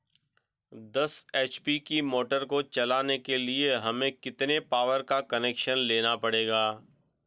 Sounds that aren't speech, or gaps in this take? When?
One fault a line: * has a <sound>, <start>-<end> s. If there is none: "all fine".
all fine